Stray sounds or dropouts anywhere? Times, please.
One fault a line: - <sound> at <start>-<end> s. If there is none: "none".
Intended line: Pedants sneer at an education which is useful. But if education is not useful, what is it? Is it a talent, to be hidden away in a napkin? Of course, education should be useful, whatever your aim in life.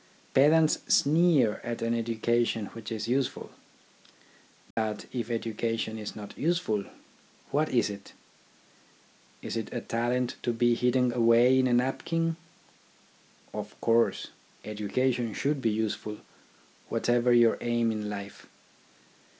- dropout at 4.7-4.8 s